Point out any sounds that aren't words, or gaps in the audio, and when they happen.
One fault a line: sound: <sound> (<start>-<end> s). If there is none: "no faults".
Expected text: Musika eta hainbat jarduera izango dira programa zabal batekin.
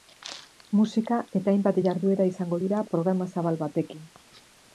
no faults